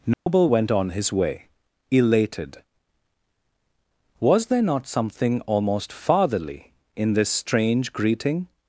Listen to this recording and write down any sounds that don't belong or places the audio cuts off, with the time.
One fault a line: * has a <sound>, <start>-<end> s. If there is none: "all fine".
* has a dropout, 0.1-0.3 s